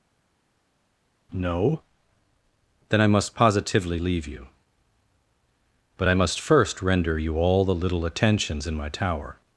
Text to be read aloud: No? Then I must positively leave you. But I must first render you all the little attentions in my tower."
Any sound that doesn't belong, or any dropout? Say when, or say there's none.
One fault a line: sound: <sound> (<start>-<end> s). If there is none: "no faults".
no faults